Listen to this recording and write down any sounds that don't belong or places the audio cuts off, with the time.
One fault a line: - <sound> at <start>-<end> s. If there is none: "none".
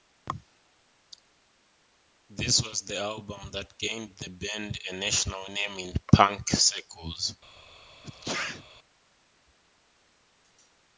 - sneeze at 8.0-8.6 s